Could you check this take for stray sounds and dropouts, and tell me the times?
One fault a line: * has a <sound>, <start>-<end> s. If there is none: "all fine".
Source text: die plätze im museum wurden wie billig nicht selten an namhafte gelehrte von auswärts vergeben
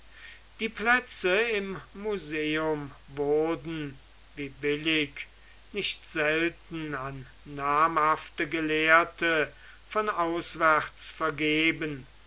all fine